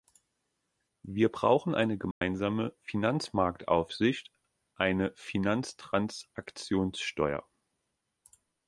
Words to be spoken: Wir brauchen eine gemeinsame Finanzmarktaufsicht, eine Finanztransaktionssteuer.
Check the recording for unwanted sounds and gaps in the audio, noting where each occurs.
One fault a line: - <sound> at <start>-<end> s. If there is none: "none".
- dropout at 2.1-2.2 s